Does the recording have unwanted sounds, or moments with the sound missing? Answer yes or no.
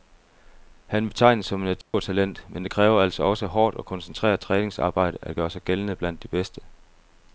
yes